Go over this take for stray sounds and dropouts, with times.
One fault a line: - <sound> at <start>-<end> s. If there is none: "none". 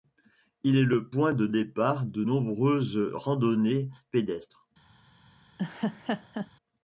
- laugh at 5.6-6.5 s